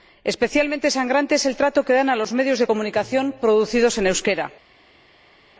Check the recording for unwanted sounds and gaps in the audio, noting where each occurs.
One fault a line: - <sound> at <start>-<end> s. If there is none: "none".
none